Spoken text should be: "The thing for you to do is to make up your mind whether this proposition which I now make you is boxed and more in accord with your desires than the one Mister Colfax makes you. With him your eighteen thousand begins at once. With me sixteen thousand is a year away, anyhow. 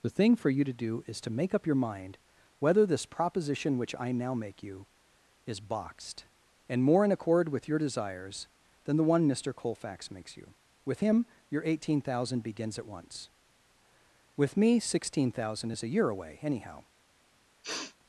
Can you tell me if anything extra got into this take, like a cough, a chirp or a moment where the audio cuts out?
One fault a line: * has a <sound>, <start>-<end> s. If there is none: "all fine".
* has a sniff, 17.6-18.0 s